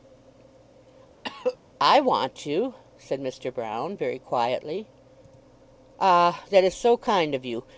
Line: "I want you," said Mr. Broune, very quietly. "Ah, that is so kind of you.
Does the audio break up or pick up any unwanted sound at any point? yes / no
yes